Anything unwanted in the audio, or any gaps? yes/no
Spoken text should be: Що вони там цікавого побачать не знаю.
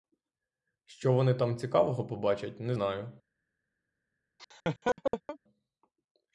yes